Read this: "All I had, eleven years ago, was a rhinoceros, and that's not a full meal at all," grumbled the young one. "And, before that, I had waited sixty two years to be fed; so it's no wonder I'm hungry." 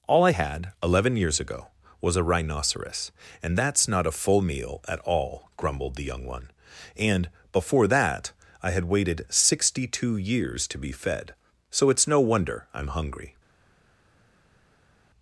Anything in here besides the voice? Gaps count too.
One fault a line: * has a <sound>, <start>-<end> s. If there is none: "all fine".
all fine